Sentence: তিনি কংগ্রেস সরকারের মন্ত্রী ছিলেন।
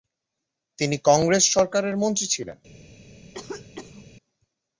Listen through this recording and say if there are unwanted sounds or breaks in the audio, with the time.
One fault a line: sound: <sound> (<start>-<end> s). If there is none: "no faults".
sound: cough (3.3-4.1 s)